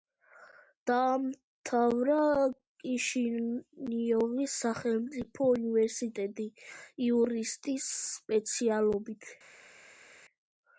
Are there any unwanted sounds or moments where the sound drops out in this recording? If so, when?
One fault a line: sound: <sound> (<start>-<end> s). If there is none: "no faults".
no faults